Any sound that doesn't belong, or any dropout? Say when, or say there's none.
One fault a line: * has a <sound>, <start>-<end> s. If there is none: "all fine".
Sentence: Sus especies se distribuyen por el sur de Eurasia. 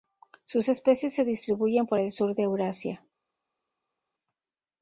all fine